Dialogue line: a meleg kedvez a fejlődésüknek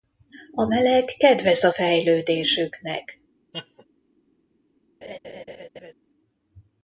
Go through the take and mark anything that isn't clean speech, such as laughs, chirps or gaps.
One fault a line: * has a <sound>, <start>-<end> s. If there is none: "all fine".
* has a laugh, 3.5-3.9 s
* has a laugh, 5.0-5.9 s